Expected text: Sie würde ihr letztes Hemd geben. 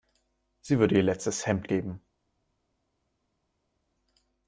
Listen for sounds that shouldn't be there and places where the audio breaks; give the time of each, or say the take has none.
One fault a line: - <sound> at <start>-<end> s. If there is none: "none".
none